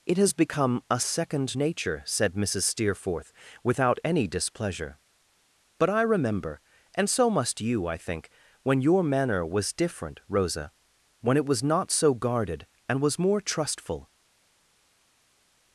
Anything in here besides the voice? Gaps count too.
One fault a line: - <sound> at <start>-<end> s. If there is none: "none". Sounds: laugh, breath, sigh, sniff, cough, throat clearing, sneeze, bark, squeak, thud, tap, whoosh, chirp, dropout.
none